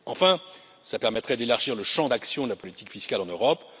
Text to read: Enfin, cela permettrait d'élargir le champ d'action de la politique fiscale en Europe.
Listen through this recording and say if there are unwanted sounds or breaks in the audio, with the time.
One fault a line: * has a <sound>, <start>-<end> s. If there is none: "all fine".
* has a dropout, 2.6-2.6 s